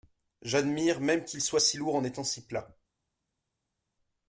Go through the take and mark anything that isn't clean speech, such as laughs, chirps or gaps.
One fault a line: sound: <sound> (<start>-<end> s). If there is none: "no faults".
no faults